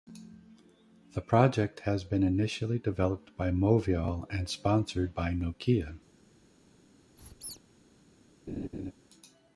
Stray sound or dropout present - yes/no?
yes